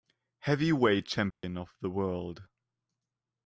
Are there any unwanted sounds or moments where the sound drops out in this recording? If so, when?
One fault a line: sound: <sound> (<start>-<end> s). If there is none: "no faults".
sound: dropout (1.3-1.4 s)